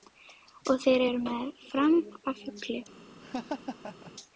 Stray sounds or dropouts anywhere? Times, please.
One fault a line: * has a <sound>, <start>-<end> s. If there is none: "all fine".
* has a laugh, 3.2-4.1 s